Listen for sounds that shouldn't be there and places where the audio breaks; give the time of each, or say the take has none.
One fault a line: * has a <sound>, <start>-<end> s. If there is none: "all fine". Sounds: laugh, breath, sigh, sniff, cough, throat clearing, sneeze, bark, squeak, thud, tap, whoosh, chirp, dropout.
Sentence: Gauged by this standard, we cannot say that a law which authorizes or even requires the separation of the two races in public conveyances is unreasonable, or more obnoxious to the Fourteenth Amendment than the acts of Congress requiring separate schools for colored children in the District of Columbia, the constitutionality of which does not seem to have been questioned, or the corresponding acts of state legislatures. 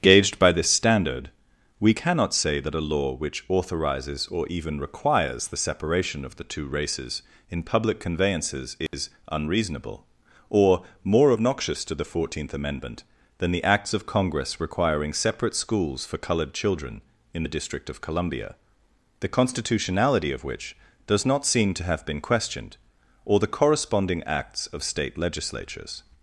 * has a dropout, 8.9-8.9 s